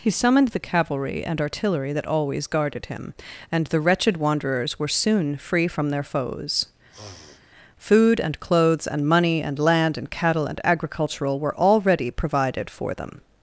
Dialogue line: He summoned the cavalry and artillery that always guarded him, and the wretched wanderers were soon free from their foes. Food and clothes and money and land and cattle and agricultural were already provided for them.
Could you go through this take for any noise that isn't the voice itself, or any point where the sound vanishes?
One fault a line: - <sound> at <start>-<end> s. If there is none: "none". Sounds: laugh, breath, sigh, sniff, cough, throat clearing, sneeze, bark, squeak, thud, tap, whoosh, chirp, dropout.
- sniff at 6.9-7.4 s